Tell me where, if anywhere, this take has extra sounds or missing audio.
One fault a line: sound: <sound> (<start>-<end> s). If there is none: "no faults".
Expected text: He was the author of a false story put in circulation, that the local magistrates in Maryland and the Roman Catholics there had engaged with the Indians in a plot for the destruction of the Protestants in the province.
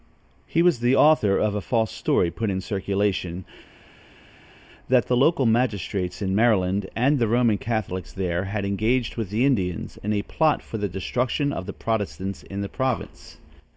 no faults